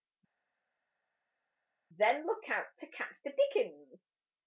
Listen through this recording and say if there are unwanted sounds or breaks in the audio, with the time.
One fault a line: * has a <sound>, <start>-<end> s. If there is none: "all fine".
all fine